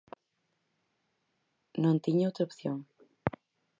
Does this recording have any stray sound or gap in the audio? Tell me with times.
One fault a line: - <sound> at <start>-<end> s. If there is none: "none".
none